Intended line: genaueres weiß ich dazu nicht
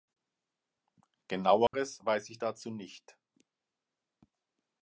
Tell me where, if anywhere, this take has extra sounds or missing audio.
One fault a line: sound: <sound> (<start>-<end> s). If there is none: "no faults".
sound: dropout (1.7-1.7 s)